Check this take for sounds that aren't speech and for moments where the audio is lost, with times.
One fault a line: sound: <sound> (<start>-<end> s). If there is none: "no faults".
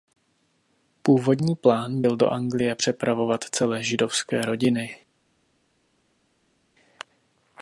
no faults